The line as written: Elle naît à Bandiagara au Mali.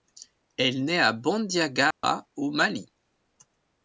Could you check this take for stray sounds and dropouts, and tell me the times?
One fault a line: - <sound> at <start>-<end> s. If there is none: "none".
- dropout at 1.9-2.0 s